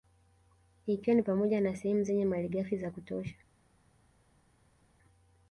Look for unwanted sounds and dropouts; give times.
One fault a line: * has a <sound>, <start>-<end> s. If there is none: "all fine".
all fine